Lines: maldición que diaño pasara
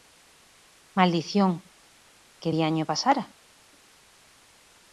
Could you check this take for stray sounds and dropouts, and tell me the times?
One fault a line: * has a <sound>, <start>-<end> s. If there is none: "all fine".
all fine